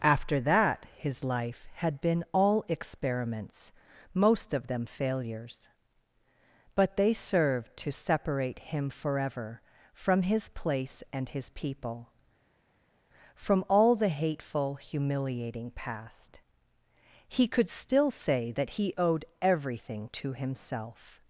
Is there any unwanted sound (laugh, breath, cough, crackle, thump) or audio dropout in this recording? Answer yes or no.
no